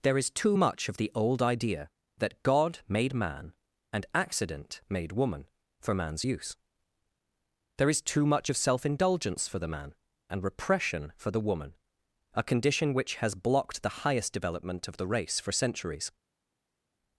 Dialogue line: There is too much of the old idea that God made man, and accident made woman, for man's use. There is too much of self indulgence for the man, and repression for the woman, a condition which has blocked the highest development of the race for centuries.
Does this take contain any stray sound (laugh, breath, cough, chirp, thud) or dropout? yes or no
no